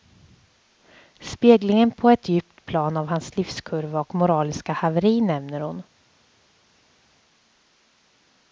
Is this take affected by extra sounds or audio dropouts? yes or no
no